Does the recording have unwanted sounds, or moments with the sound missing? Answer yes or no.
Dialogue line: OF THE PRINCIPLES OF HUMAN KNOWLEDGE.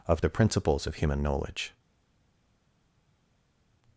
no